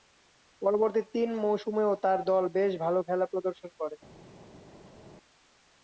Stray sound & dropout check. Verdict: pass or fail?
pass